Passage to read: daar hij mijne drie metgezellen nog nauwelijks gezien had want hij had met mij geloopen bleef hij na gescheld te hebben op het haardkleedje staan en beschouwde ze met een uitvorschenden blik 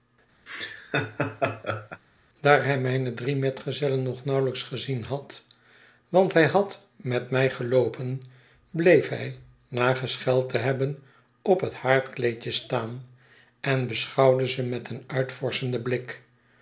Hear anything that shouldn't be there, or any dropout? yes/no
yes